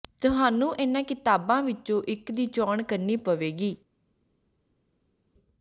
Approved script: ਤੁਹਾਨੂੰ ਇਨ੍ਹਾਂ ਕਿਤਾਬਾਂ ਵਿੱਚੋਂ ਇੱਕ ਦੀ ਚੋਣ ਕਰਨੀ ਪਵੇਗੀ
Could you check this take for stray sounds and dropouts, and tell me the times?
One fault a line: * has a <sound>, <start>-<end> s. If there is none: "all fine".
all fine